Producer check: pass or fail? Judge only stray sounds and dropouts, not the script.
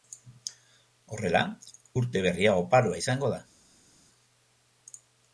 pass